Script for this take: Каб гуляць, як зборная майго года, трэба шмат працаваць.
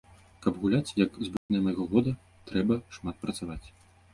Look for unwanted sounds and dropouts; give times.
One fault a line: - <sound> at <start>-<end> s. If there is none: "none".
- dropout at 1.4-1.5 s